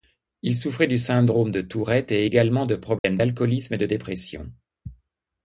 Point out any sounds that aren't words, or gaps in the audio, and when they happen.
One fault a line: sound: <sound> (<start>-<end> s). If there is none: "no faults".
sound: dropout (3.0-3.0 s)